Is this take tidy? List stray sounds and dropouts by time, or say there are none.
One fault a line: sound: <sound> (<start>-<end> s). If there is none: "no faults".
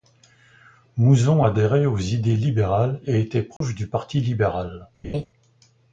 sound: dropout (3.6-3.6 s)
sound: laugh (5.0-5.3 s)